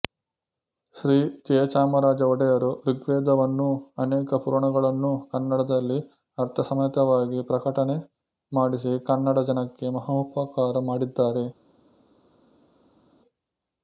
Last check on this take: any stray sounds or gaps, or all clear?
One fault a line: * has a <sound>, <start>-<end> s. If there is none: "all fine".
all fine